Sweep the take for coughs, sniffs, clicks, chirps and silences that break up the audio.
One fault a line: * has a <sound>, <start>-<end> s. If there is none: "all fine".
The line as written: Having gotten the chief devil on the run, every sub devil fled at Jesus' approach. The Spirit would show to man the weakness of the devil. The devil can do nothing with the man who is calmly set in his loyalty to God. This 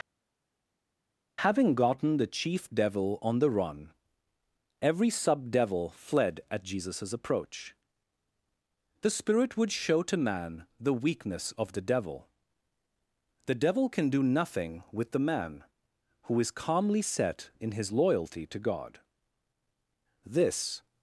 all fine